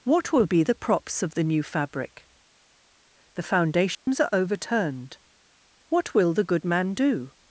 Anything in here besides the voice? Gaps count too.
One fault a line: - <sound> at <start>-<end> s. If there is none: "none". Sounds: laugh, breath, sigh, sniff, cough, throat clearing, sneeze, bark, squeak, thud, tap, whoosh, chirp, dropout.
- dropout at 3.9-4.1 s